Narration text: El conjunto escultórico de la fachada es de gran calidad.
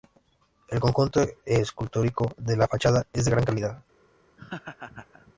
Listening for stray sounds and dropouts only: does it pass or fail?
fail